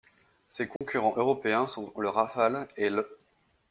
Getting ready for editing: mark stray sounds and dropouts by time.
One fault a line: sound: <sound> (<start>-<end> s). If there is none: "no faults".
sound: dropout (0.8-0.8 s)